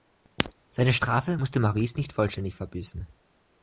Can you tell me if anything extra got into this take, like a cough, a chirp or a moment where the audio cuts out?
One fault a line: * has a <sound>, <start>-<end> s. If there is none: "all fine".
all fine